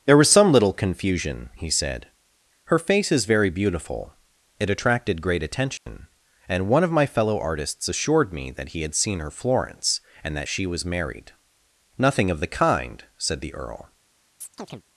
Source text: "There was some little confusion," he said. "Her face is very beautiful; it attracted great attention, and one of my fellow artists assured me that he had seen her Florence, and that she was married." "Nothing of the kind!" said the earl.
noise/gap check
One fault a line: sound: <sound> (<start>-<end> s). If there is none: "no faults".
sound: dropout (5.8-5.9 s)
sound: chirp (14.4-14.8 s)